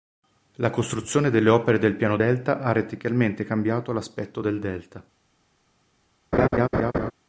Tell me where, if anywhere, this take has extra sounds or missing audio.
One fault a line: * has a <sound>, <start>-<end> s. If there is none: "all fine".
* has a laugh, 6.3-7.1 s